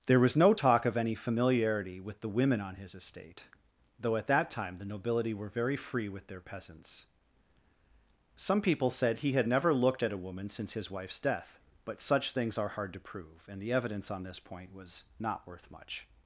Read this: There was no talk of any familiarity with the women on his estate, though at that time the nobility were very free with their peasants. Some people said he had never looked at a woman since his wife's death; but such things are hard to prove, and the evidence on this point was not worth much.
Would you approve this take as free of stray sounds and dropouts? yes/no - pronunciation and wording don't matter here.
yes